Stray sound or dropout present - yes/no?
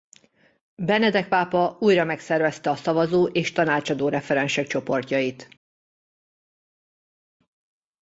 no